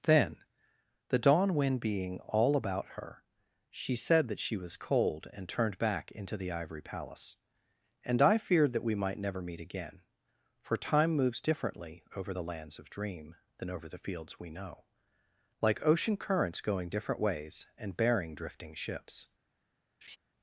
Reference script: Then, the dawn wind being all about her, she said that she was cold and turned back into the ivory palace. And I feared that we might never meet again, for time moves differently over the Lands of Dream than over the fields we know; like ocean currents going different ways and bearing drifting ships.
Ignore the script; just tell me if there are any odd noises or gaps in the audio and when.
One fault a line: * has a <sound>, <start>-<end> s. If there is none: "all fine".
* has a laugh, 20.0-20.2 s